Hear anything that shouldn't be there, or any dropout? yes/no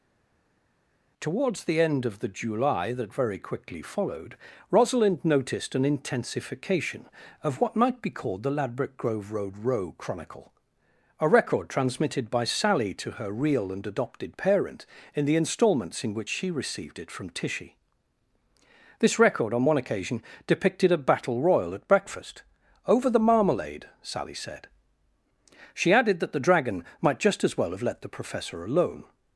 no